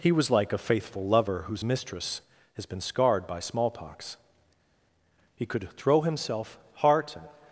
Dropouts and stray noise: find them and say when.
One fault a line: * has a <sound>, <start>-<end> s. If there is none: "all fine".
all fine